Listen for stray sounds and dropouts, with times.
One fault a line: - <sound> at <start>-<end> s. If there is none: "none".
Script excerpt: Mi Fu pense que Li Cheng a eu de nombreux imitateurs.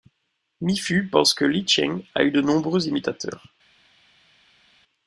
none